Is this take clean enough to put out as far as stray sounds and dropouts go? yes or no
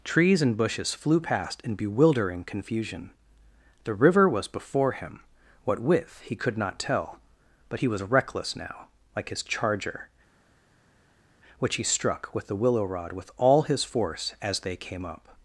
yes